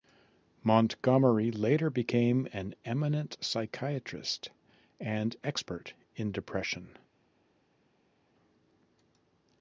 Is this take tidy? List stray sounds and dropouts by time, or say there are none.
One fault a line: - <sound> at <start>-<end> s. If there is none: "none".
none